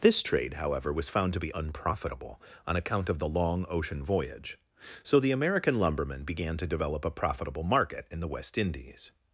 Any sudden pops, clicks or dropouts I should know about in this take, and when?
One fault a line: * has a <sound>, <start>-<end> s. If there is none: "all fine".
all fine